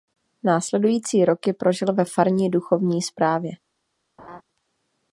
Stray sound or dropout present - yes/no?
yes